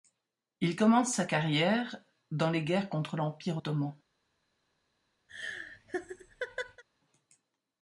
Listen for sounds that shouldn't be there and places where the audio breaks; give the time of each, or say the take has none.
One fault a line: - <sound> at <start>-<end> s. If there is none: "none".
- laugh at 5.3-6.8 s